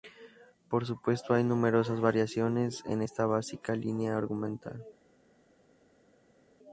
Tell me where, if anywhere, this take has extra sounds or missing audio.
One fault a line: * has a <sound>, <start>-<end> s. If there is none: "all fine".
all fine